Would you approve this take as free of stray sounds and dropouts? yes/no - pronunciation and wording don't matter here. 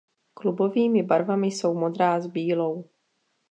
yes